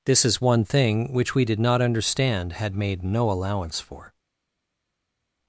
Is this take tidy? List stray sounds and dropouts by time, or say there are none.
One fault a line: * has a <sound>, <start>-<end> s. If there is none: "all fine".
all fine